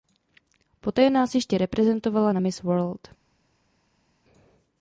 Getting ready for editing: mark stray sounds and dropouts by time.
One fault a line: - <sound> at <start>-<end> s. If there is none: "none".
none